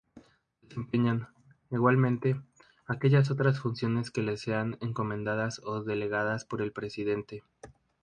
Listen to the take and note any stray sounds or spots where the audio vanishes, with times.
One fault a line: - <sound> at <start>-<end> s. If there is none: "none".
none